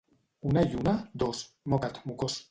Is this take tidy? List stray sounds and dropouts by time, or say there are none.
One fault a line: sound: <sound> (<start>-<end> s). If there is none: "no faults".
no faults